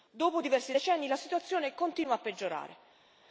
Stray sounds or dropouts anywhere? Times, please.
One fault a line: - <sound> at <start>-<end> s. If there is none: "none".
none